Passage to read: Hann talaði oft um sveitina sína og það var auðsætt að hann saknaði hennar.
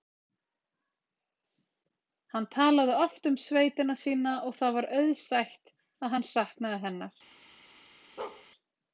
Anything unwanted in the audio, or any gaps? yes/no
yes